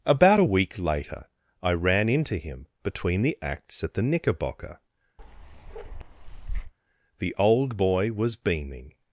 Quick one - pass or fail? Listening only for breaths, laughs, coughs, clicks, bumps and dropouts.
fail